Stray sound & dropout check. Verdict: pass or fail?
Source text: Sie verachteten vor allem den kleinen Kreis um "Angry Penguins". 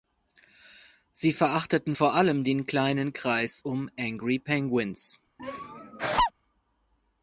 fail